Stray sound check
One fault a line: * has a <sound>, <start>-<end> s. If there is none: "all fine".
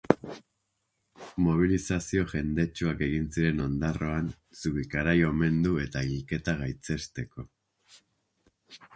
all fine